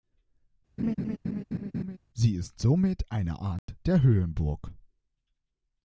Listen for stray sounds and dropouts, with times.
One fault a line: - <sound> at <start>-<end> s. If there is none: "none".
- laugh at 0.8-2.0 s
- dropout at 3.6-3.7 s